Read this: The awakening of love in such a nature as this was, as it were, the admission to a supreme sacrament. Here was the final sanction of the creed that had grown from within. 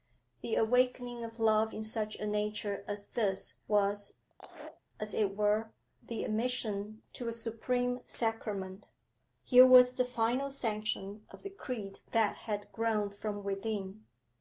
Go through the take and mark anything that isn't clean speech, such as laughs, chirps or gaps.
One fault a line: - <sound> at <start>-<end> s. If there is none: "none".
- laugh at 4.3-4.8 s